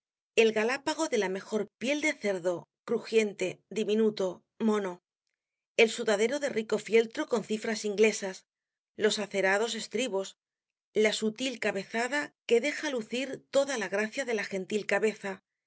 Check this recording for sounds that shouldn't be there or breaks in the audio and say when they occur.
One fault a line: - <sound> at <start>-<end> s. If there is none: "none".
none